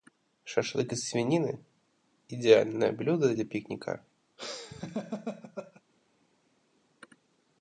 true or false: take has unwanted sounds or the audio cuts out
true